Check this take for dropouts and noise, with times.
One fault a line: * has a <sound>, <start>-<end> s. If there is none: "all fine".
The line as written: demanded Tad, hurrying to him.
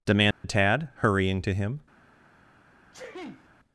* has a dropout, 0.3-0.4 s
* has a sneeze, 2.9-3.5 s